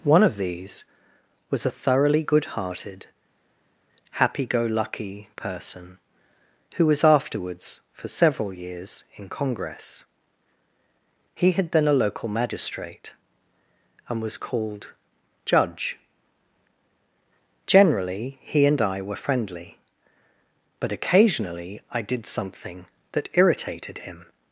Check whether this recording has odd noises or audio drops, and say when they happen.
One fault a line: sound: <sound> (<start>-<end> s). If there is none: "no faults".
no faults